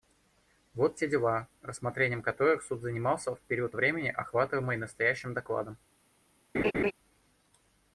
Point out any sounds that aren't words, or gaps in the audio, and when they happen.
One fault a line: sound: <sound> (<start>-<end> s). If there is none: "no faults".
sound: laugh (6.5-6.9 s)